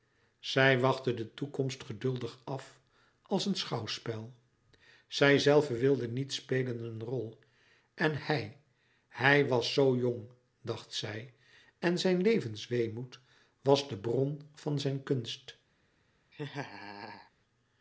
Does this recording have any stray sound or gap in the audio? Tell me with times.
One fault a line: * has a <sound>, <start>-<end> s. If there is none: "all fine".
* has a laugh, 16.3-17.3 s